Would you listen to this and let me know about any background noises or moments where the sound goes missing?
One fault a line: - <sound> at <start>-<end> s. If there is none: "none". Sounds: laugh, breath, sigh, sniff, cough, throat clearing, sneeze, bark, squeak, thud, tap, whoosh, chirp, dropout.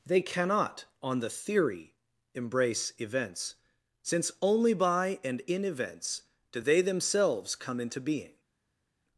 none